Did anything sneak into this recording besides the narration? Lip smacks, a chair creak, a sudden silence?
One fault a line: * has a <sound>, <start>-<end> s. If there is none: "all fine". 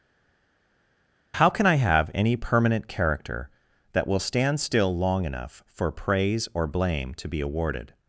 all fine